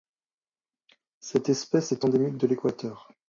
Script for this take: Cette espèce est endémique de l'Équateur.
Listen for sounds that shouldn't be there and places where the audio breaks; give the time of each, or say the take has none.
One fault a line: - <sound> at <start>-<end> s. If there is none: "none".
none